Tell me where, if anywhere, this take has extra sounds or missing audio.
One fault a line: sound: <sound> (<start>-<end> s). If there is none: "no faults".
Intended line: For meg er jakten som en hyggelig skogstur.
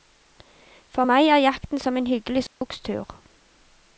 sound: dropout (2.5-2.6 s)